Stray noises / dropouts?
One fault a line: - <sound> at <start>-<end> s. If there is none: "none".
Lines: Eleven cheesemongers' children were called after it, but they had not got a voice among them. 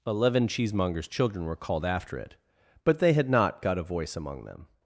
none